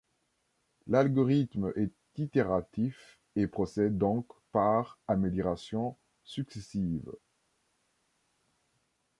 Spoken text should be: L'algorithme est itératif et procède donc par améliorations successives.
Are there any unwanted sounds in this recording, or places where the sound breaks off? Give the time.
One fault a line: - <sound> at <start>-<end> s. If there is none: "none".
none